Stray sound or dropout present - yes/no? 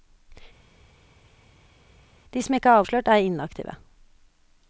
no